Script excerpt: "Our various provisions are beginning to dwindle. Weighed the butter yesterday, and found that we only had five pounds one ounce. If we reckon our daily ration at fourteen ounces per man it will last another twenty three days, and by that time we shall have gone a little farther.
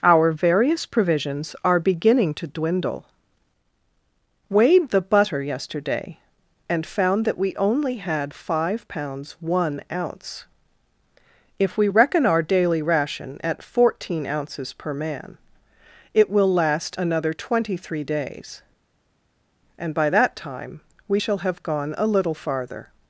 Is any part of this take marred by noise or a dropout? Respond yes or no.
no